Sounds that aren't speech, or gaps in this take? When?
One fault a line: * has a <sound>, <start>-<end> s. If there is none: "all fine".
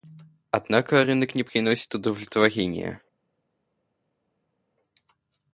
all fine